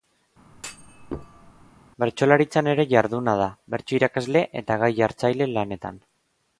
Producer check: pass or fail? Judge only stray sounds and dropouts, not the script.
fail